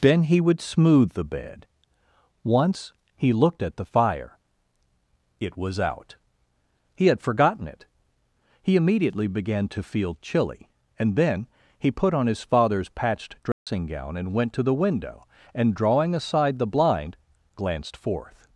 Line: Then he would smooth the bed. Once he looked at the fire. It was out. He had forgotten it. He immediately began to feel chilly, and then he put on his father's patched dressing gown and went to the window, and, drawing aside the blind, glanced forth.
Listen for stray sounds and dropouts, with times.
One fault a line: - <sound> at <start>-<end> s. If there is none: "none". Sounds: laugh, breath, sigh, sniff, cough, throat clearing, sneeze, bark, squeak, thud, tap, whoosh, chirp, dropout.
- dropout at 13.5-13.7 s